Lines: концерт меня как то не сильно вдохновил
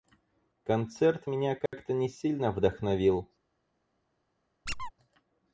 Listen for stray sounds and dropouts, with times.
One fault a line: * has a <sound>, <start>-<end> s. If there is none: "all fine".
* has a dropout, 1.7-1.7 s
* has a squeak, 4.7-4.9 s